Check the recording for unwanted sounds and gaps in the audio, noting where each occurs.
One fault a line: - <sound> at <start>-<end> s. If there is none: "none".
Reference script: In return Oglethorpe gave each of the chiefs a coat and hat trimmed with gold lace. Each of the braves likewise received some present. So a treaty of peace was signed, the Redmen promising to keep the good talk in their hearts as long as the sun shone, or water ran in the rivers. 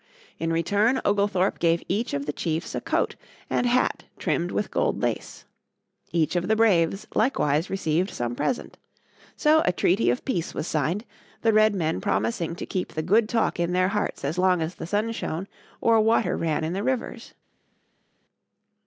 none